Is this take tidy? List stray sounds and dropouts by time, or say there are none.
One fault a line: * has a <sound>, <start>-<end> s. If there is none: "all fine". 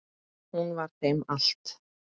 all fine